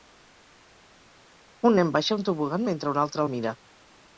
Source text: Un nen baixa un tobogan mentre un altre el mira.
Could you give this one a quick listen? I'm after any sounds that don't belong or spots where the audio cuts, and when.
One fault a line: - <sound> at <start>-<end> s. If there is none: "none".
none